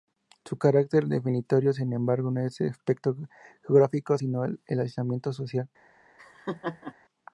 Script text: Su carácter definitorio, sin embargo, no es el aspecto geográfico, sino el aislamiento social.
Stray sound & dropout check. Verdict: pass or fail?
fail